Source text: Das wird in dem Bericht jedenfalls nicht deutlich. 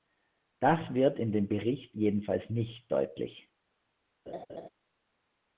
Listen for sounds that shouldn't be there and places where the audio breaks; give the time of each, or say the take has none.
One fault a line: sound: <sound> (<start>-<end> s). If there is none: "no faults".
sound: laugh (4.3-4.7 s)